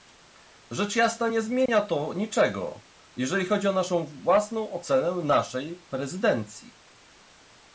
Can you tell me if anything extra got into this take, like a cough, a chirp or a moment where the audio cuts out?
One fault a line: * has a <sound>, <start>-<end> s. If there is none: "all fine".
* has a dropout, 1.7-1.7 s